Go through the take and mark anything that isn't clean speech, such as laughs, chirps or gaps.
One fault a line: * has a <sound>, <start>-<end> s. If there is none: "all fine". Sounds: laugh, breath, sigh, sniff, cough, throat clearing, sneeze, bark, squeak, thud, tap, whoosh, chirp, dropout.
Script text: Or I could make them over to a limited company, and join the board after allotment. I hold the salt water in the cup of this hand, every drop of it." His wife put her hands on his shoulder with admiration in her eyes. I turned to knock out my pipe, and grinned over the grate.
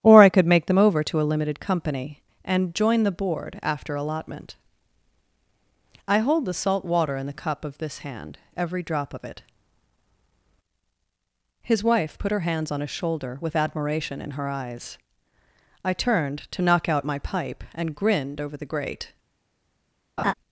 * has a laugh, 20.2-20.3 s